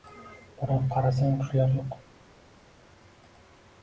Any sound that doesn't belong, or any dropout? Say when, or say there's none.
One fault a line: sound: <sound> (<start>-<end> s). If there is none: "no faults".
no faults